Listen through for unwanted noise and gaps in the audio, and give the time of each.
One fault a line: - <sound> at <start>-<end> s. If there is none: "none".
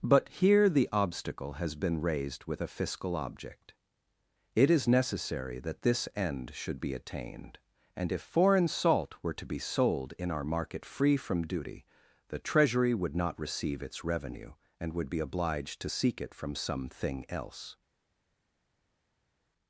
none